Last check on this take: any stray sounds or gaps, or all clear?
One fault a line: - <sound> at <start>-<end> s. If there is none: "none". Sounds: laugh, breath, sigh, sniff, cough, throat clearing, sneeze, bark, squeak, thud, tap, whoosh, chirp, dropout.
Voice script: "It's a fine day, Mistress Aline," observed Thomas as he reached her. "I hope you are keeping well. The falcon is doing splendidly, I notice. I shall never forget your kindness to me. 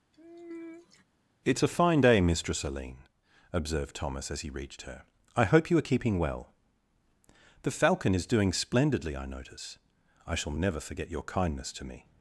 - sigh at 0.1-1.0 s